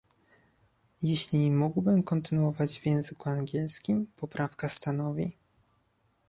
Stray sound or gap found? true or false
false